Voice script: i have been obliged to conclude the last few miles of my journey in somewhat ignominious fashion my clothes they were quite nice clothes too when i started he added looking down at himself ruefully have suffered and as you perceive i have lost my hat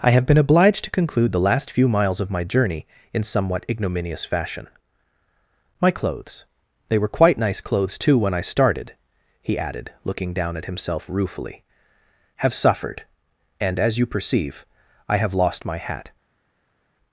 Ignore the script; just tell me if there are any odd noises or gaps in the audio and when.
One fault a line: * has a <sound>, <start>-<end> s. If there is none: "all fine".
all fine